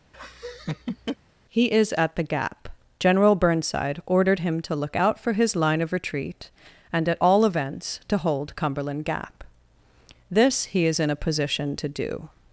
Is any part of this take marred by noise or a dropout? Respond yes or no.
yes